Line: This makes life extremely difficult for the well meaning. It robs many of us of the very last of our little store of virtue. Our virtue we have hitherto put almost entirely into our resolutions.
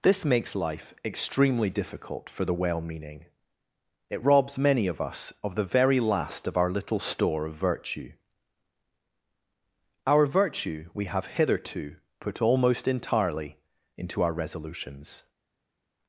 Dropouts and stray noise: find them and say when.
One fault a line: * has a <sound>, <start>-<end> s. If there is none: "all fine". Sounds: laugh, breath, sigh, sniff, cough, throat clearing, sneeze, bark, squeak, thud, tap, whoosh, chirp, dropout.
all fine